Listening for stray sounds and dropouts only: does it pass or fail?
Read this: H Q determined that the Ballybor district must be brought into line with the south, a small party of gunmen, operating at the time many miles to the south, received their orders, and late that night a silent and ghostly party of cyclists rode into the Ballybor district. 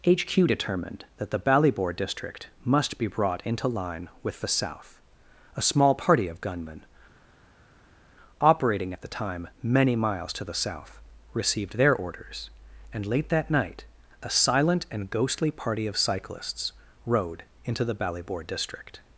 pass